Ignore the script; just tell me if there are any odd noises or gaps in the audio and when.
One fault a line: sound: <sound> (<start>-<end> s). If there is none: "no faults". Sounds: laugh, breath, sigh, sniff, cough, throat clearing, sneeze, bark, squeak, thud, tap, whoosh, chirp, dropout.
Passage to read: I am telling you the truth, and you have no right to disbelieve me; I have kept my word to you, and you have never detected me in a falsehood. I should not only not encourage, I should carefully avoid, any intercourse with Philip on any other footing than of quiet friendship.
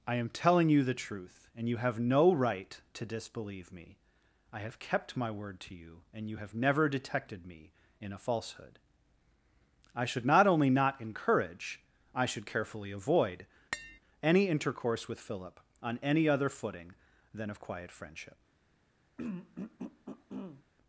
sound: tap (13.7-14.0 s)
sound: throat clearing (19.2-20.6 s)